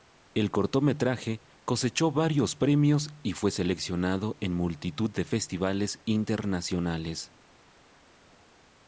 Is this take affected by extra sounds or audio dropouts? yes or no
no